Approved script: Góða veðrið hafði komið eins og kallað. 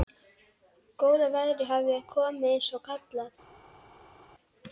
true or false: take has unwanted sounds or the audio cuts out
false